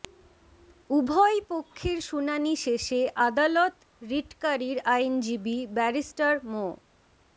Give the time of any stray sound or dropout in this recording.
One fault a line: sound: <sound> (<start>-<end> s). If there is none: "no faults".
no faults